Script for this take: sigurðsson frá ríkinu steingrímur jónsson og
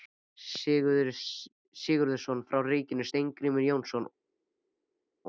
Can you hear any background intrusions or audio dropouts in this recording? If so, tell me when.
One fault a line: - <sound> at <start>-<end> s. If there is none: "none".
none